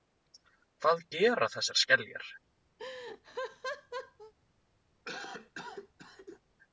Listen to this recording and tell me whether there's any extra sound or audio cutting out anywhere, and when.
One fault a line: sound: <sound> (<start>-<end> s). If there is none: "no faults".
sound: laugh (2.8-4.3 s)
sound: cough (5.0-6.4 s)